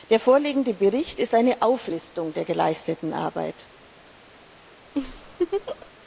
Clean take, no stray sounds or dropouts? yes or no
no